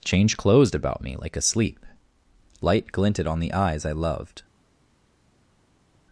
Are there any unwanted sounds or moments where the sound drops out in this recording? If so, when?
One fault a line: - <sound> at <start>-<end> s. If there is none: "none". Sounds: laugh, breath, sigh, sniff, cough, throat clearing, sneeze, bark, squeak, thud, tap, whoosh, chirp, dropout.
none